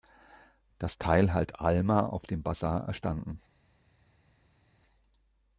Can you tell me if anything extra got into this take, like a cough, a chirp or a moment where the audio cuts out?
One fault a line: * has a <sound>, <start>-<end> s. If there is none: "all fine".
all fine